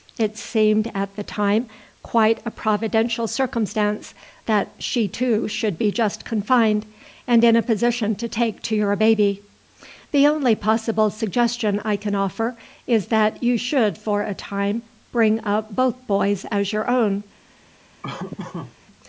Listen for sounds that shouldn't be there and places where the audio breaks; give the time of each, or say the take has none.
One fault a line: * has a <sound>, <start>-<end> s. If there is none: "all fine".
* has a laugh, 18.0-18.8 s